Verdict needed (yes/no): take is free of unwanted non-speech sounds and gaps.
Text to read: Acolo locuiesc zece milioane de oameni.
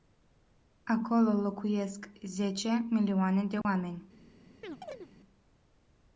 no